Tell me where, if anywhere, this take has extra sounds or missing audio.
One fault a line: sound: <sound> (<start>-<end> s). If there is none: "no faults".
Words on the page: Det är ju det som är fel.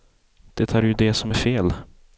no faults